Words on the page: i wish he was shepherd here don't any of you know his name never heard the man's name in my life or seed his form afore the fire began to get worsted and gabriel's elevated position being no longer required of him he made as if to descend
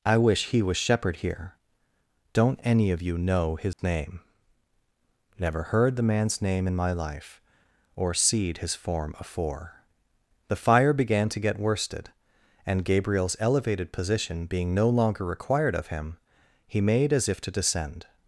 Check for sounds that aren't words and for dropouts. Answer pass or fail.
fail